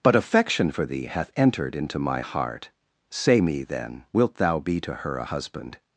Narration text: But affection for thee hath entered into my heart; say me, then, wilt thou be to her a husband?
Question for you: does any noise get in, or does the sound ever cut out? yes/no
no